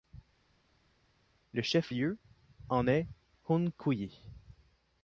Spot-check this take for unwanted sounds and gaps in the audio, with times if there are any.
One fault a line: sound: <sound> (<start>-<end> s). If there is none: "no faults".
no faults